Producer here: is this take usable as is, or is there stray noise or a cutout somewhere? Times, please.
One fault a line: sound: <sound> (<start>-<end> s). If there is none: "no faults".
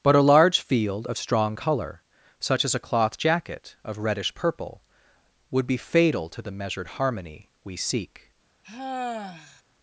sound: sigh (8.6-9.6 s)